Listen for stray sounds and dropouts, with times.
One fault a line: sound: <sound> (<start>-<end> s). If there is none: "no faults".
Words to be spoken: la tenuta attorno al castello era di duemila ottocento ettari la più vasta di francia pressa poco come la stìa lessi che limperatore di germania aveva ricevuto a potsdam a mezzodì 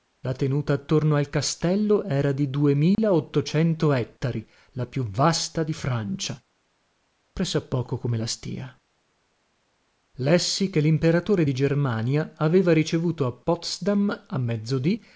sound: dropout (2.9-3.0 s)